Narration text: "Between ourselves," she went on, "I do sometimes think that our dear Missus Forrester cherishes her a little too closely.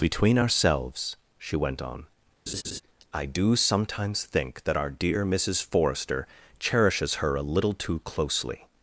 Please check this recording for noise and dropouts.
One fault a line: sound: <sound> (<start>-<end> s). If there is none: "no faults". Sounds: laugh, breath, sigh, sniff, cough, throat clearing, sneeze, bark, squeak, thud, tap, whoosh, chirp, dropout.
sound: laugh (2.5-2.8 s)